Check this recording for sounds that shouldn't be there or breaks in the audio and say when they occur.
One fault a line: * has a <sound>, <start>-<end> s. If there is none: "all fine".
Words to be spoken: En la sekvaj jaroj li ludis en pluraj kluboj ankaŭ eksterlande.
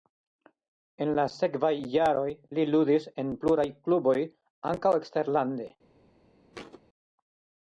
* has a thud, 6.5-6.8 s